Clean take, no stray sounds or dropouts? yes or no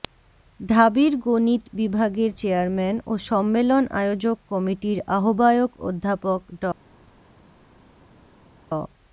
yes